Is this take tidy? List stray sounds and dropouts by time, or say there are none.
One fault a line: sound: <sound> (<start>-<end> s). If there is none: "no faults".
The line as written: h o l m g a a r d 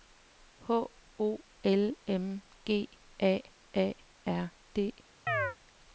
sound: chirp (5.3-5.6 s)